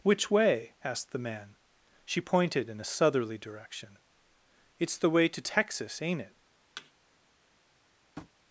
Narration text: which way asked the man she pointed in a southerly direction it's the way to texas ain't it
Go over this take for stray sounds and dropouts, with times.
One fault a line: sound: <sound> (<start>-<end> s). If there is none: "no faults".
sound: thud (6.8-6.9 s)
sound: tap (8.2-8.3 s)